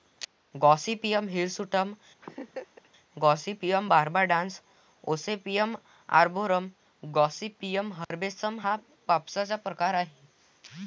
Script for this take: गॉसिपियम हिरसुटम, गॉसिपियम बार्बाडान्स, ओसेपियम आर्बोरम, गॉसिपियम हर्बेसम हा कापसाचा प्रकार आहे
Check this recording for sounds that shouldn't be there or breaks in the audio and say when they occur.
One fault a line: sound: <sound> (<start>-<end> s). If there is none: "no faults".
sound: laugh (2.2-2.9 s)
sound: dropout (8.0-8.1 s)